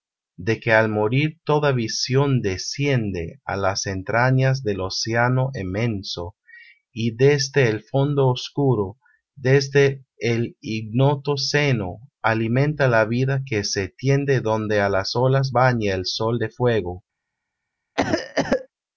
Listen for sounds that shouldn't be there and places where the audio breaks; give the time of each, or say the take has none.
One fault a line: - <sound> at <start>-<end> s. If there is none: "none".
- cough at 18.0-18.7 s